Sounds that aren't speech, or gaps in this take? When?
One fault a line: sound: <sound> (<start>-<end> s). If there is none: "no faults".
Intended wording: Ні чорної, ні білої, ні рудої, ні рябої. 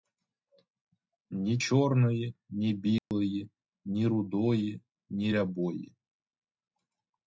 sound: dropout (3.0-3.1 s)